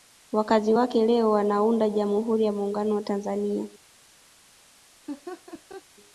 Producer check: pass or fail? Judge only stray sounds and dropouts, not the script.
fail